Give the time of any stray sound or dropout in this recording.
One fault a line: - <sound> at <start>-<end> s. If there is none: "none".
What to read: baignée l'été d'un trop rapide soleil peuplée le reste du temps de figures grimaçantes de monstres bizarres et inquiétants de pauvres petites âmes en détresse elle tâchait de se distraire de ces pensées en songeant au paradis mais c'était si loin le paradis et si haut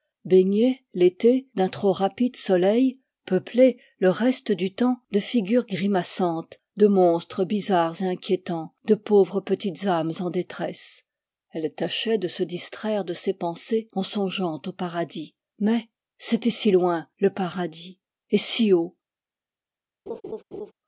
- laugh at 20.1-20.7 s